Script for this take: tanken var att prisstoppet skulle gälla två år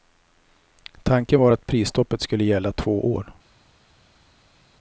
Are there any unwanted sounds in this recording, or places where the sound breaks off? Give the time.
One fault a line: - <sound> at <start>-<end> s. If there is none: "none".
none